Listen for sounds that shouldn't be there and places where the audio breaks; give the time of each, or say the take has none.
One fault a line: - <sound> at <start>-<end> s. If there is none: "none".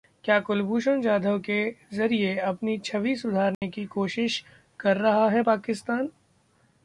- dropout at 3.5-3.6 s